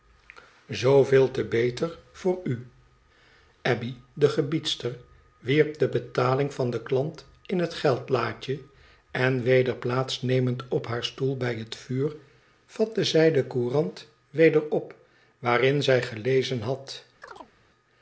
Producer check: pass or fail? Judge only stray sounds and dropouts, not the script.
fail